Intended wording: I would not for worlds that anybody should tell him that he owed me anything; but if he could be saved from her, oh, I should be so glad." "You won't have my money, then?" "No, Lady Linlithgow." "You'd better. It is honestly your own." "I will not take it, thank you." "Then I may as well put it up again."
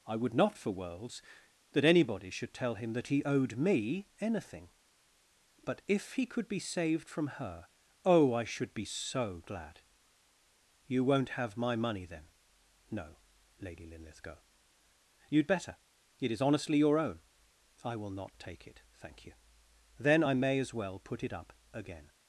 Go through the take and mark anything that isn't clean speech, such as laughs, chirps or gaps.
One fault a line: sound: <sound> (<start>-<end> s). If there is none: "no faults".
no faults